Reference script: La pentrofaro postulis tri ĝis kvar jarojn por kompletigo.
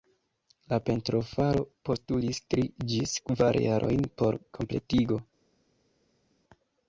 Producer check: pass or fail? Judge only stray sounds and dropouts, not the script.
pass